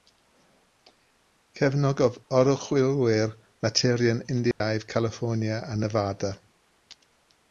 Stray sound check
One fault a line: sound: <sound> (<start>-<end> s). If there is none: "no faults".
sound: dropout (4.5-4.6 s)